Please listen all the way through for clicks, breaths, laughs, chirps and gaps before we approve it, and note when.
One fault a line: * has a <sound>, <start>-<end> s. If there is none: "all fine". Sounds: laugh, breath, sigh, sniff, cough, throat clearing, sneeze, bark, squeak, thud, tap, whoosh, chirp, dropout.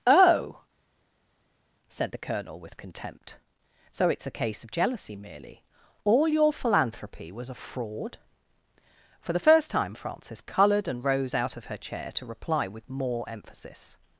all fine